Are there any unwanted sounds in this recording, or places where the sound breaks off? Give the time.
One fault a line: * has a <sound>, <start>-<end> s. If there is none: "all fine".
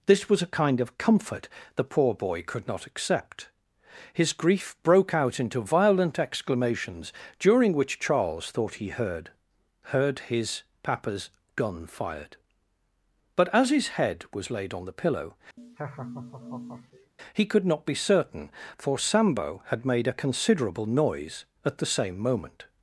* has a laugh, 15.6-17.1 s